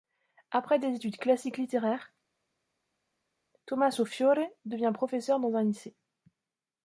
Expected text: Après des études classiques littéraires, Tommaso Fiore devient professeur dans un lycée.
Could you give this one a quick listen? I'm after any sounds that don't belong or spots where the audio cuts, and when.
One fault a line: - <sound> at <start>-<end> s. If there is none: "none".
none